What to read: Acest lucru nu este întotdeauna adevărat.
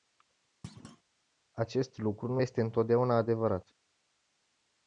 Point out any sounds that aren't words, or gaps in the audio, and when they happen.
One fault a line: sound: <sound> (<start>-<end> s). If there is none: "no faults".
sound: thud (0.6-1.0 s)